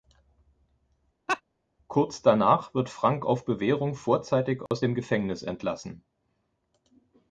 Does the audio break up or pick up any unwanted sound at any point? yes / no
yes